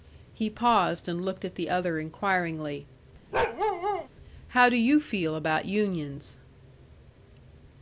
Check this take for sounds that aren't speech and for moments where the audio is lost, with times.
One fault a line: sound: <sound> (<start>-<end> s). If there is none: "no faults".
sound: bark (3.3-4.1 s)